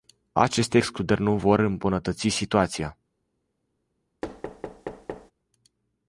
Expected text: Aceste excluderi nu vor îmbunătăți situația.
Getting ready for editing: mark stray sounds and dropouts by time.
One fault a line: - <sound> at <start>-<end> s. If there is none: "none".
- thud at 4.2-5.3 s